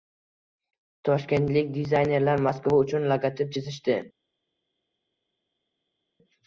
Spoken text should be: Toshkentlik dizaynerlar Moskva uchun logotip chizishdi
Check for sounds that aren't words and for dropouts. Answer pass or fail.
pass